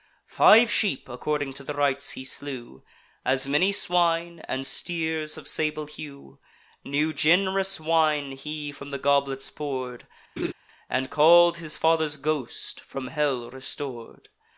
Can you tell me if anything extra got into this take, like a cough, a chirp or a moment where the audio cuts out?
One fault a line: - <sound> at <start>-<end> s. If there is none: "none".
- laugh at 10.4-10.5 s